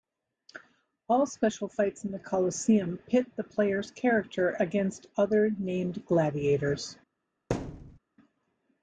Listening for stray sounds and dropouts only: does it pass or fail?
fail